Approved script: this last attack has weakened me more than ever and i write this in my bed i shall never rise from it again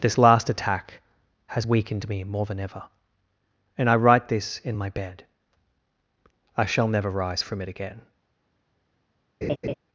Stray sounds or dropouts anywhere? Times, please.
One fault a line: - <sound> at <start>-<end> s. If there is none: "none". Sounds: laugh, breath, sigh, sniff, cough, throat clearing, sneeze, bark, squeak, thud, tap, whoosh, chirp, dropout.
- laugh at 9.4-9.7 s